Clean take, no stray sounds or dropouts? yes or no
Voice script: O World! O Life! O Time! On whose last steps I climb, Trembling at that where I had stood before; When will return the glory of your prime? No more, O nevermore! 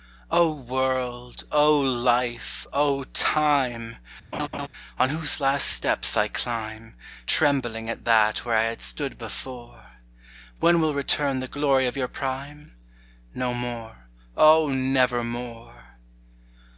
no